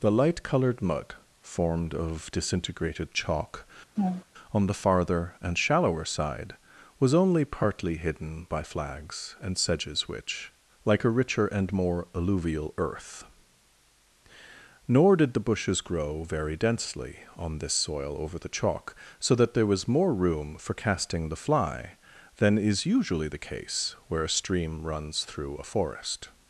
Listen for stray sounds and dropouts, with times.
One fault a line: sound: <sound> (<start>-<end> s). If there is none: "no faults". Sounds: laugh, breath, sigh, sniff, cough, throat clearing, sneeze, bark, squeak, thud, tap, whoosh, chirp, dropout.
sound: laugh (4.0-4.2 s)